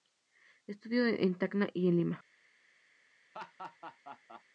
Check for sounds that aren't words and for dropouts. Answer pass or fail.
fail